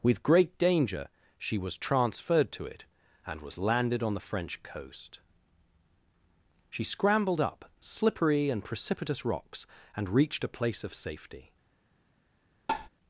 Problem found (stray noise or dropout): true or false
true